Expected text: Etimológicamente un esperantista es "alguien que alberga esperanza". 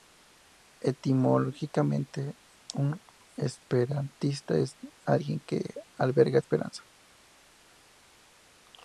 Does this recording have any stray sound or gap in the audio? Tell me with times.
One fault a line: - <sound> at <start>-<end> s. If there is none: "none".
none